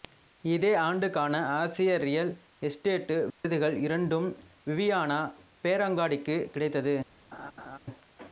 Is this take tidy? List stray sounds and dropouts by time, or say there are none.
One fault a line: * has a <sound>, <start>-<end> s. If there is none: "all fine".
* has a dropout, 3.3-3.4 s
* has a laugh, 7.3-7.8 s